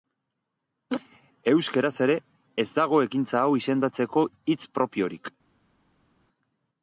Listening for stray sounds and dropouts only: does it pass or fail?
pass